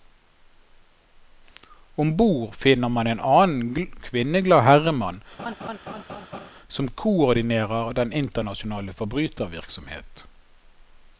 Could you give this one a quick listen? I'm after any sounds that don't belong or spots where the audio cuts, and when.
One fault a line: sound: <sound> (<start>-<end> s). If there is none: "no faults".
sound: laugh (5.4-6.5 s)